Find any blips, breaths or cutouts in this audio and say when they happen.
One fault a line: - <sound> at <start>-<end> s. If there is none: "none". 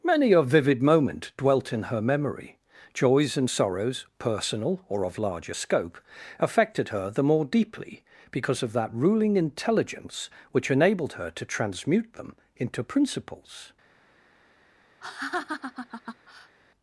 - laugh at 15.0-16.6 s